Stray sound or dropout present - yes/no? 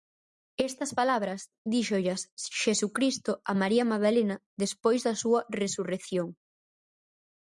no